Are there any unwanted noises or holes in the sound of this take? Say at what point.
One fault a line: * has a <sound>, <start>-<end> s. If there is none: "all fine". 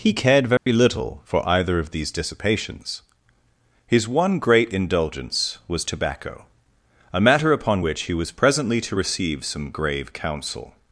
* has a dropout, 0.6-0.7 s